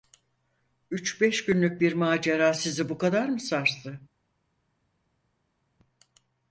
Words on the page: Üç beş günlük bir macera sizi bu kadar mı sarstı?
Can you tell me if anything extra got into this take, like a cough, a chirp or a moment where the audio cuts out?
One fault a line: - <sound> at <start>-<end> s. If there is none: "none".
none